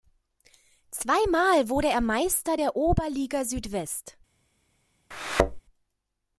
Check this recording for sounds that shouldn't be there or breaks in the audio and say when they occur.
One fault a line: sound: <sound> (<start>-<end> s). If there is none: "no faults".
sound: thud (5.1-5.6 s)